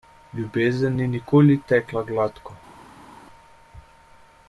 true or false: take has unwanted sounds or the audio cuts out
false